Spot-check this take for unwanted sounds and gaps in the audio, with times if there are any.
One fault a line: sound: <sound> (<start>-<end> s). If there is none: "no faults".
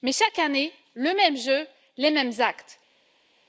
no faults